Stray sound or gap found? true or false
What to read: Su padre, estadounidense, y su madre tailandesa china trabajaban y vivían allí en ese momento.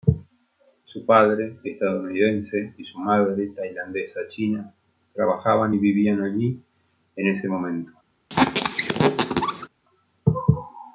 true